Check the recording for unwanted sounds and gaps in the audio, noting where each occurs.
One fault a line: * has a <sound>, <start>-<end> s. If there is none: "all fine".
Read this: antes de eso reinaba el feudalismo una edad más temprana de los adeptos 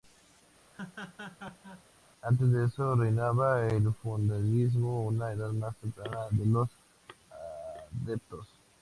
* has a laugh, 0.7-1.8 s